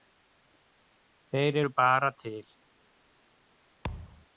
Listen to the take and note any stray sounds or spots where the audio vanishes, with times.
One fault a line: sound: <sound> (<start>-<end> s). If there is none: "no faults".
sound: thud (3.8-4.3 s)